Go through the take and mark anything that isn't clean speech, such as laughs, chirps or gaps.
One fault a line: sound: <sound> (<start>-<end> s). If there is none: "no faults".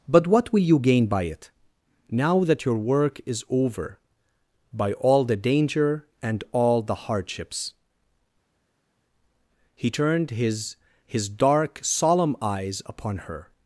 no faults